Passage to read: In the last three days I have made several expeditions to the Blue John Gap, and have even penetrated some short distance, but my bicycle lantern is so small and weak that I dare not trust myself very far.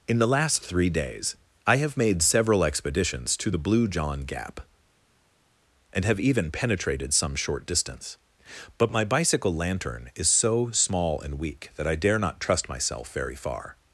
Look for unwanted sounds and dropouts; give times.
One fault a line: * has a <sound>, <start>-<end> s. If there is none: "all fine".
all fine